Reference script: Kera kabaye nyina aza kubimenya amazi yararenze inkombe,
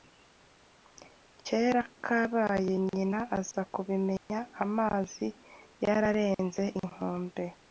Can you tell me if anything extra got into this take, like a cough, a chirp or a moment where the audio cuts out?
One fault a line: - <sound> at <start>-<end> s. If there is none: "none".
- dropout at 4.2-4.3 s